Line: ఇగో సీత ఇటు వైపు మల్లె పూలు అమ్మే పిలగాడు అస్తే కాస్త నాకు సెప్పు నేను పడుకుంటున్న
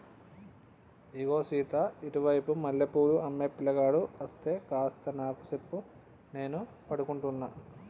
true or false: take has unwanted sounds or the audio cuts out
false